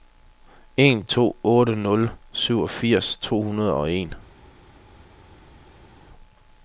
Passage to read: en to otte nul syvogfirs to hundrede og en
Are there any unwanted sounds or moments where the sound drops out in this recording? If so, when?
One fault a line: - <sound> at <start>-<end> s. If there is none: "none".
none